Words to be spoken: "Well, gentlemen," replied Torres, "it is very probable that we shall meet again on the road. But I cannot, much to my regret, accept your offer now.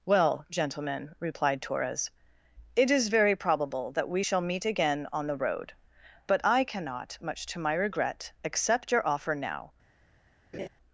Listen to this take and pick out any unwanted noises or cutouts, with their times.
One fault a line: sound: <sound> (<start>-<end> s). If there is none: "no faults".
sound: laugh (10.5-10.7 s)